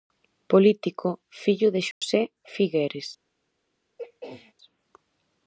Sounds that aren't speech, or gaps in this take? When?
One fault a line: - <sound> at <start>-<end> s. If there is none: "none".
- dropout at 1.9-2.0 s
- throat clearing at 4.0-4.5 s